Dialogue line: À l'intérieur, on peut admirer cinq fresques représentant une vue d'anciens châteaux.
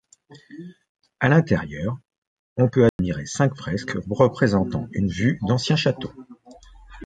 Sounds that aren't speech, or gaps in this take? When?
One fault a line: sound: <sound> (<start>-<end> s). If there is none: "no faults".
sound: dropout (2.9-3.0 s)